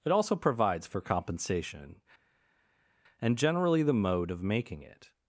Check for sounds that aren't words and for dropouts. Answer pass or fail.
pass